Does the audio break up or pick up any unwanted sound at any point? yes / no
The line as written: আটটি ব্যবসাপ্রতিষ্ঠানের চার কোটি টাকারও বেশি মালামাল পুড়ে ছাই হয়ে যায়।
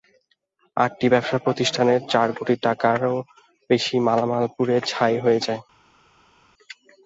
no